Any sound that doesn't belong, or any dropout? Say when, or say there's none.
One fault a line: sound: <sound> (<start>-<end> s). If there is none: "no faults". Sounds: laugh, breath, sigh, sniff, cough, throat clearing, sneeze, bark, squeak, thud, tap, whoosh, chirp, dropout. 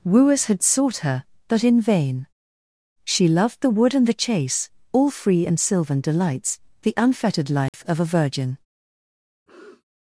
sound: dropout (7.7-7.7 s)
sound: sniff (9.5-9.8 s)